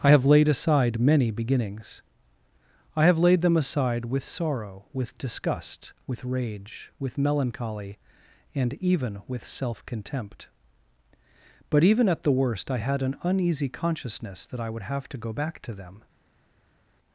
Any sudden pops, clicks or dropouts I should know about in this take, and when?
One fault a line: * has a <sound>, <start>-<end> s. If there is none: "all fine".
all fine